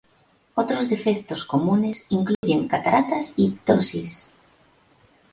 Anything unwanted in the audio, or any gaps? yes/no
yes